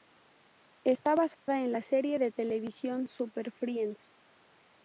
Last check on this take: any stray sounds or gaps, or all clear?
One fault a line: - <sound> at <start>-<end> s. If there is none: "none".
- dropout at 1.3-1.5 s